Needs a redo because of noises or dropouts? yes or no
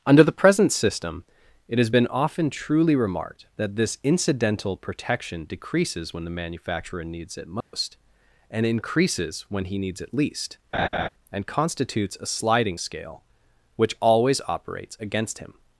yes